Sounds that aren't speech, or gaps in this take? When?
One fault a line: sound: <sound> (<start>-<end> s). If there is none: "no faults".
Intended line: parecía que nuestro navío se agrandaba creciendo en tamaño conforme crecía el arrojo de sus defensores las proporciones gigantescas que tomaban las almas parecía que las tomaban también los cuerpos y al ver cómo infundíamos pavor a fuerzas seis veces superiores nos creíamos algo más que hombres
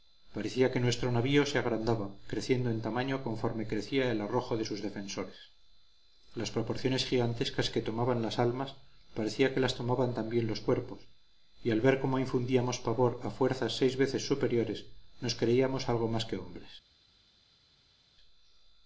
no faults